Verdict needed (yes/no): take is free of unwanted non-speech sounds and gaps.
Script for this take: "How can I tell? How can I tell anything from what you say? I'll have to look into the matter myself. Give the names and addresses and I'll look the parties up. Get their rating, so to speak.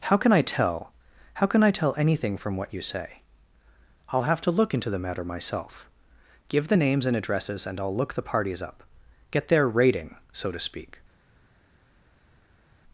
yes